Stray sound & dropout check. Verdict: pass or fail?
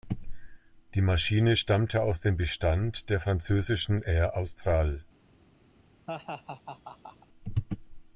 fail